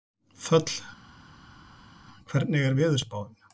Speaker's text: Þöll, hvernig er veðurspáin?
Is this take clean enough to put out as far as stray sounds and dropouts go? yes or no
yes